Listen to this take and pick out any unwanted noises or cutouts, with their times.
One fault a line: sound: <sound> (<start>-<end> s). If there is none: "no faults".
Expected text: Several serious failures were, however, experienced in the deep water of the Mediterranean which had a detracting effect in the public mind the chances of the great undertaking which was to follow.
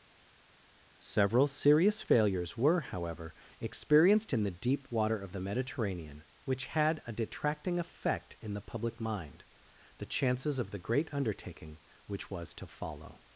no faults